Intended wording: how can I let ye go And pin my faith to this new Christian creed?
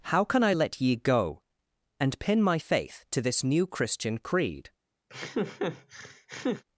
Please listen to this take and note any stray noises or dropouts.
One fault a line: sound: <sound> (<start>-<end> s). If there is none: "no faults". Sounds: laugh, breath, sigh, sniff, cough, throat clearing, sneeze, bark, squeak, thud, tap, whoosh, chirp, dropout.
sound: laugh (5.1-6.6 s)